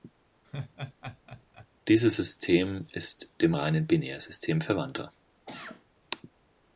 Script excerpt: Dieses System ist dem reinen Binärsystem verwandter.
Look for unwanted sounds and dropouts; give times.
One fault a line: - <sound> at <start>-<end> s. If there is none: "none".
- laugh at 0.4-1.7 s
- cough at 5.5-5.9 s